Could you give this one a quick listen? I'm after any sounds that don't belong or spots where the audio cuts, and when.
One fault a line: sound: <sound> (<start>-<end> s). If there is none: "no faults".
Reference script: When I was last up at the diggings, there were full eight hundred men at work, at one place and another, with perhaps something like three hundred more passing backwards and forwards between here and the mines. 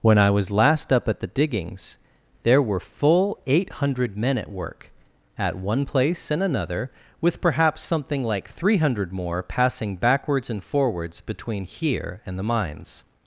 no faults